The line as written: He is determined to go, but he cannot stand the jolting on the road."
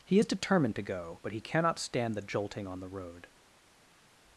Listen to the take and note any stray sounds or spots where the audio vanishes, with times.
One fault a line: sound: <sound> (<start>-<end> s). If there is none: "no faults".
no faults